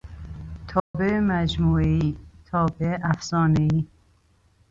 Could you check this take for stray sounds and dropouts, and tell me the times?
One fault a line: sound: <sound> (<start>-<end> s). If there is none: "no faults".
sound: dropout (0.8-0.9 s)